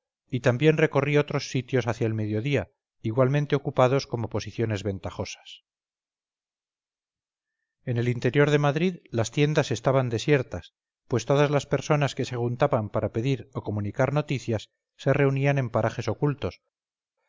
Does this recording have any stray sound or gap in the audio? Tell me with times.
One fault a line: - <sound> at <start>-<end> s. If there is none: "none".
none